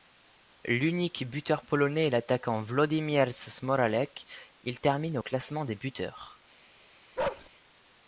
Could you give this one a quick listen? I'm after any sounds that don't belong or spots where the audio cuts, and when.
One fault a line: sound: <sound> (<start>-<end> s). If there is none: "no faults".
sound: bark (7.2-7.5 s)